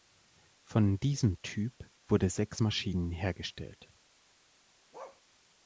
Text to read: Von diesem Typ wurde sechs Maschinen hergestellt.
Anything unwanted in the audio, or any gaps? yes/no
yes